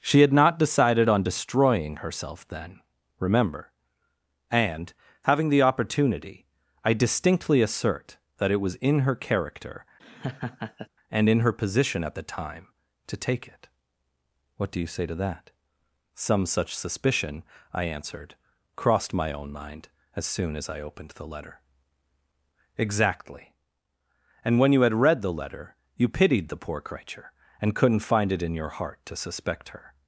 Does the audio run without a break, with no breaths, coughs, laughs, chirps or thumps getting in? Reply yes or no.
no